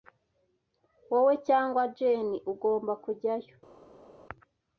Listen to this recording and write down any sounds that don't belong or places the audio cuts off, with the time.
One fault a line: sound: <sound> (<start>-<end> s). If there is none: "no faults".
no faults